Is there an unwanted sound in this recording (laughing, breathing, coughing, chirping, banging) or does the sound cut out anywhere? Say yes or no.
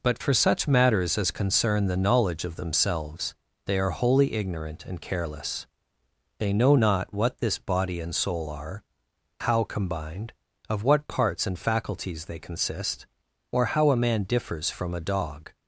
no